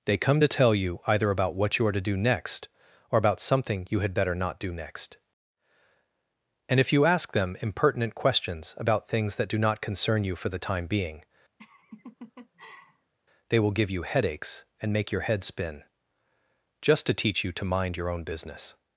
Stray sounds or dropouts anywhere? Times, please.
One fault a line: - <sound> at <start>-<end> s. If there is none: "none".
- laugh at 11.6-13.1 s